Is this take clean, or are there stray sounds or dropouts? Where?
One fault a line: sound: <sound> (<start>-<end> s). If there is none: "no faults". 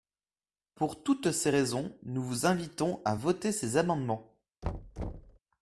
sound: thud (4.6-5.4 s)